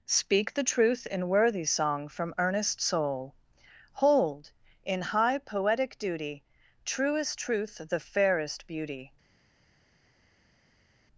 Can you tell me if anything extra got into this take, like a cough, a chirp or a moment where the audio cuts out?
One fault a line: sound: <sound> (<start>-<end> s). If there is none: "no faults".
no faults